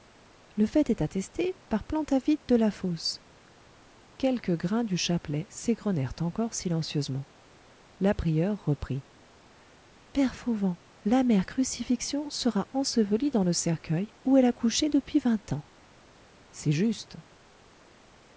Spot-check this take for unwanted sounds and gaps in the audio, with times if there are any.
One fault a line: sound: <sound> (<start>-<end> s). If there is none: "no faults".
no faults